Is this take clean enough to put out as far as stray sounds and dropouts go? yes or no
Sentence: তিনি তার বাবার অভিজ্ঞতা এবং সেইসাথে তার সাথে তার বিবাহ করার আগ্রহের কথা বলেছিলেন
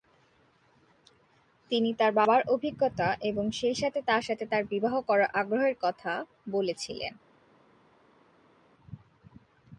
yes